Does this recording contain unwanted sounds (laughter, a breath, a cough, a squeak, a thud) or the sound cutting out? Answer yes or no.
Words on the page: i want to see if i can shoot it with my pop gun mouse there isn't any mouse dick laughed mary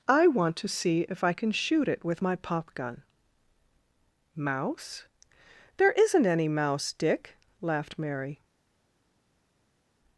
no